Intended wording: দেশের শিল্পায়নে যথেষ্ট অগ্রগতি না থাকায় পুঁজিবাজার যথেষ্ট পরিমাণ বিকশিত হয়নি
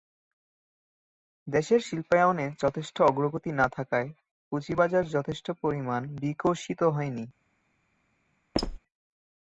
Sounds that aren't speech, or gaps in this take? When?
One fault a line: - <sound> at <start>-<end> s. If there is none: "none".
- squeak at 8.5-8.8 s